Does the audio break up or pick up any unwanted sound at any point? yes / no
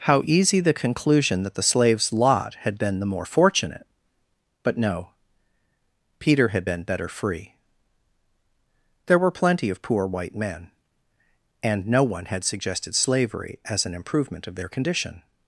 no